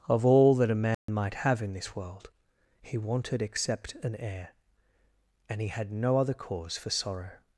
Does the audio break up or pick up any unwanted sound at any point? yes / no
yes